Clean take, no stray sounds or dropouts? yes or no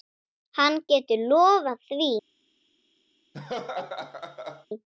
no